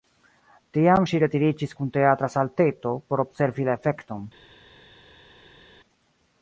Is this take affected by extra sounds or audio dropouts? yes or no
no